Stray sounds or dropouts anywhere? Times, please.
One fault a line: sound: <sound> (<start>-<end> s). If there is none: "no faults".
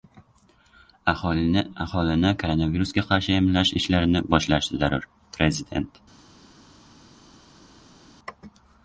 no faults